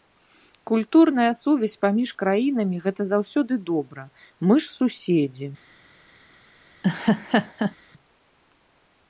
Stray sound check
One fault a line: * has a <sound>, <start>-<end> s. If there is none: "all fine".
* has a laugh, 6.8-7.7 s